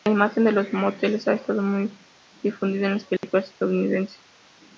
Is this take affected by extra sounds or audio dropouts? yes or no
yes